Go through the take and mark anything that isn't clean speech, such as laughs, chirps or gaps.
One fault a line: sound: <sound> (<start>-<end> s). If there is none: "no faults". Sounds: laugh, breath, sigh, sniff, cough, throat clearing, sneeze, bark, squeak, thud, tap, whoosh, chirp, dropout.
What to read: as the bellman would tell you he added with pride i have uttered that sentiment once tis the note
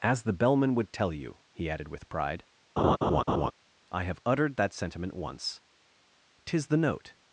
sound: laugh (2.8-3.5 s)